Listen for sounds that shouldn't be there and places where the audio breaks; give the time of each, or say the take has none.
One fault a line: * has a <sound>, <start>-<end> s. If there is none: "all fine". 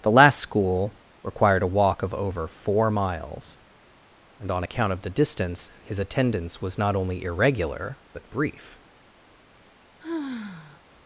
* has a sigh, 10.0-10.8 s